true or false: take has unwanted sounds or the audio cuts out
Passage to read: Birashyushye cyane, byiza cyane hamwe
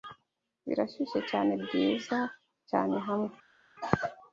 false